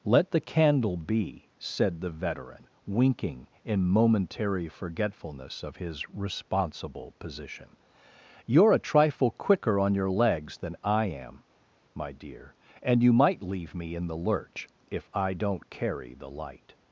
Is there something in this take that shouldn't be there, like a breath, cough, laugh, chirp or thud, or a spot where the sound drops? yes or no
no